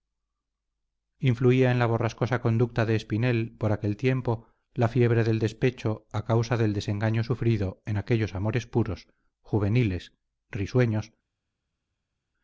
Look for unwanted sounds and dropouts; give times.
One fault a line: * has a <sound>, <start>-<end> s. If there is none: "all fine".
all fine